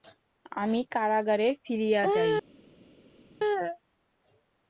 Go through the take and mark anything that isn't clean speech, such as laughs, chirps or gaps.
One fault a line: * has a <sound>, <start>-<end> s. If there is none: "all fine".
all fine